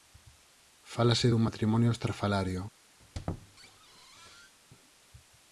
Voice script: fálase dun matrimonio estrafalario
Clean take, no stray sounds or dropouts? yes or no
no